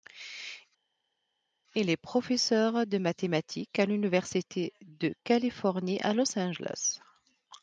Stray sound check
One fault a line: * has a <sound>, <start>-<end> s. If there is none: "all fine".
all fine